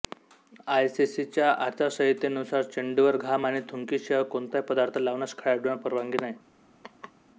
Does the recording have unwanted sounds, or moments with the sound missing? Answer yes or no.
yes